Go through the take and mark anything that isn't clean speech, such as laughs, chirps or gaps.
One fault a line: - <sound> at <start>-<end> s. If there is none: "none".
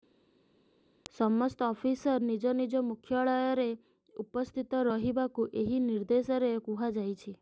none